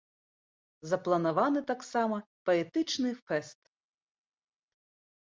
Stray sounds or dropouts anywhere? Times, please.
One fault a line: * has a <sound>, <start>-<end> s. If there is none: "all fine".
all fine